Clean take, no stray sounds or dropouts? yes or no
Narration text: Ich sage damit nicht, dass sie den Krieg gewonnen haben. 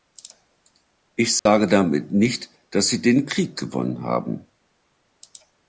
no